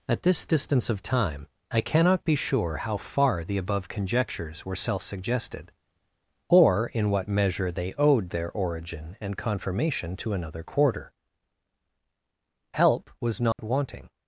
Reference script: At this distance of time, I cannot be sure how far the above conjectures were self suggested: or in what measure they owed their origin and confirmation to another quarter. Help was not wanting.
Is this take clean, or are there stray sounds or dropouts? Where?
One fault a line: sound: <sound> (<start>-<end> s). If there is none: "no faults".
sound: dropout (13.5-13.6 s)